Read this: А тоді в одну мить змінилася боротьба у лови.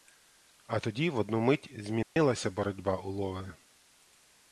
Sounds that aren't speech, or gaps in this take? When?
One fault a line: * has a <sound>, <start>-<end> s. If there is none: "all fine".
* has a dropout, 2.0-2.2 s